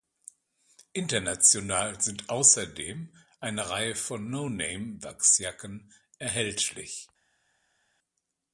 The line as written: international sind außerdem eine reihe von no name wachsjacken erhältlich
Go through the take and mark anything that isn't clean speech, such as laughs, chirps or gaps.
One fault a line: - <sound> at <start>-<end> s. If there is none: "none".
none